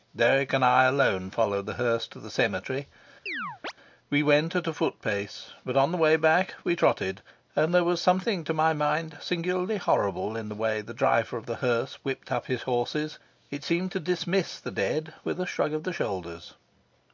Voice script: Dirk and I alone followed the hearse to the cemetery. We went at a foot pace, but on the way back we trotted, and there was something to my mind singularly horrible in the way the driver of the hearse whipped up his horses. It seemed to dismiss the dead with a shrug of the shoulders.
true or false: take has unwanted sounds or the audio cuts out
true